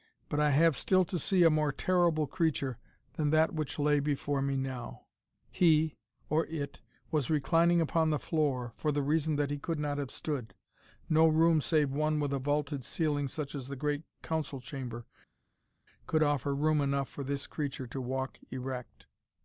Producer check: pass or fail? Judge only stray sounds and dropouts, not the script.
pass